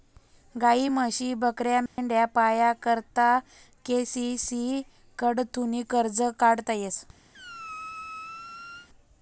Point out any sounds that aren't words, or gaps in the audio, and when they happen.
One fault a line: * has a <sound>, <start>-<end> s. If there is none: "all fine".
* has a dropout, 1.9-2.0 s
* has a squeak, 7.3-8.9 s